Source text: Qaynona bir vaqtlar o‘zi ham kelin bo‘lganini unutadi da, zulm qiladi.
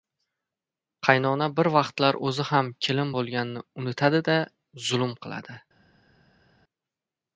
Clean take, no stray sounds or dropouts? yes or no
yes